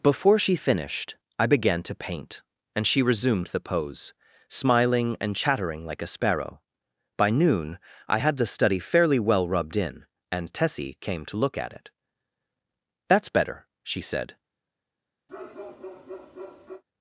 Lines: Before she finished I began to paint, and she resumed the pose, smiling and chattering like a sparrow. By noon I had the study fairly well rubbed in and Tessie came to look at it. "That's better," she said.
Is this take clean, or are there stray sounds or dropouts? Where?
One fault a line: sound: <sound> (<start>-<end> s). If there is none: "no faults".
sound: bark (15.3-16.8 s)